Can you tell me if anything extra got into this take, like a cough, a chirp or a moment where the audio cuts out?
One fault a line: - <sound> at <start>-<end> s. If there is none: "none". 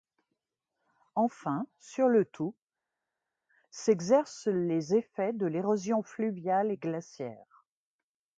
none